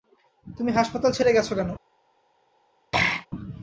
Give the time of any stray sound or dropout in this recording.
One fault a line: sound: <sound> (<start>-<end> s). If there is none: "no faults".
sound: throat clearing (2.9-3.3 s)